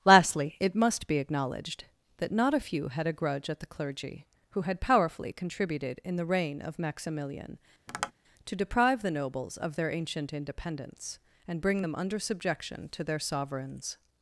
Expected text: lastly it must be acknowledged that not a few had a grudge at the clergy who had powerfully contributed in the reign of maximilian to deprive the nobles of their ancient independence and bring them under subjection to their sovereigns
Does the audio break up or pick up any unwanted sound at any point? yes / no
yes